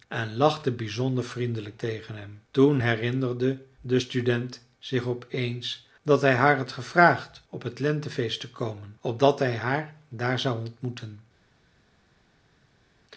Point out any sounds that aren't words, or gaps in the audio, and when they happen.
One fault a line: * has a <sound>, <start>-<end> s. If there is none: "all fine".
all fine